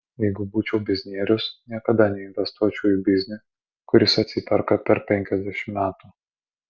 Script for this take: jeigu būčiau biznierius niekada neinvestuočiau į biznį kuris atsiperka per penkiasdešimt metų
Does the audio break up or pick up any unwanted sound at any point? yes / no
no